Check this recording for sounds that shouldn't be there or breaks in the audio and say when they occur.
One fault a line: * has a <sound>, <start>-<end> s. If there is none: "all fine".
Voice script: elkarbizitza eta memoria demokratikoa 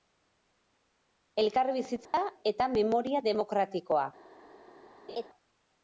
* has a dropout, 2.1-2.1 s
* has a laugh, 5.1-5.3 s